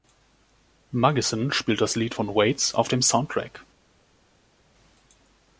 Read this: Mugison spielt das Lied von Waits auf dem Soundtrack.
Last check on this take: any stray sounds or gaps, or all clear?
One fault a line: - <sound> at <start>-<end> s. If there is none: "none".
none